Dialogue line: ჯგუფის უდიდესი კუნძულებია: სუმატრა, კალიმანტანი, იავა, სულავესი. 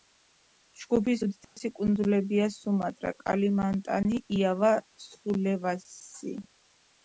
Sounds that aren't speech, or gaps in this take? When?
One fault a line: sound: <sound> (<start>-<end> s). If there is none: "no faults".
sound: dropout (1.4-1.6 s)